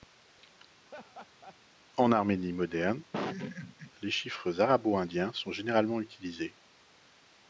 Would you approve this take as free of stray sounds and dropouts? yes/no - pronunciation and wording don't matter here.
no